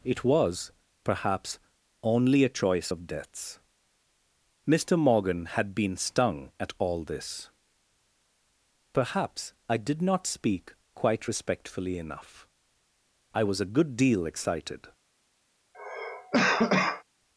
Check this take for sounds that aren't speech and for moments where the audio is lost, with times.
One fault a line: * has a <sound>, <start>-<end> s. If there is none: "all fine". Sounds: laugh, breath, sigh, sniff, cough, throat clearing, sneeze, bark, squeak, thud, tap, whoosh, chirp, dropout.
* has a cough, 15.7-17.0 s